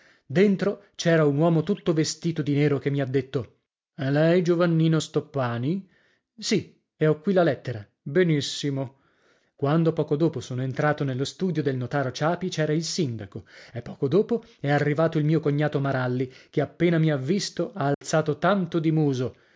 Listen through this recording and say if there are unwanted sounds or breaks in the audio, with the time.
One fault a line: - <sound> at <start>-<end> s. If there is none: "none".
- dropout at 17.9-18.0 s